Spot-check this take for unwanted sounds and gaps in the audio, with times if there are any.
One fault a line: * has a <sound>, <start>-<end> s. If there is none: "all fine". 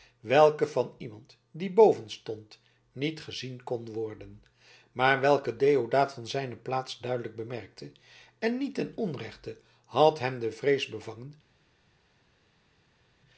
all fine